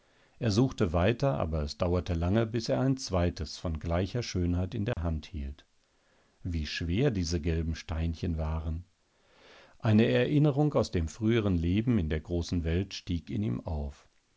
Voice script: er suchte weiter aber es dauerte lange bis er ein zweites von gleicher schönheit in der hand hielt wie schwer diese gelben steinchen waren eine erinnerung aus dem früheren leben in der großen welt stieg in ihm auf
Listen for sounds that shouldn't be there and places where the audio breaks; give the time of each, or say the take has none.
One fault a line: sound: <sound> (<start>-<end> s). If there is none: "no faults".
sound: dropout (4.9-5.0 s)